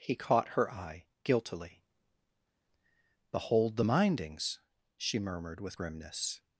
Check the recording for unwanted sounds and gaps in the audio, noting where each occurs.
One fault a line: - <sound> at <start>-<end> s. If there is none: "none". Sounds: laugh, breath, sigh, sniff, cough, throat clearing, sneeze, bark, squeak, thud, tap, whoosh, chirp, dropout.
none